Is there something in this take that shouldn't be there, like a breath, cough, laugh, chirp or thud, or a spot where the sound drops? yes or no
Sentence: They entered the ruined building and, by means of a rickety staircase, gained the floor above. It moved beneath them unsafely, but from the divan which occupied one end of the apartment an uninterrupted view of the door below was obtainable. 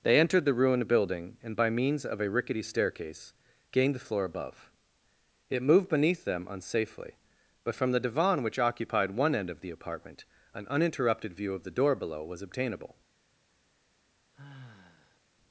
yes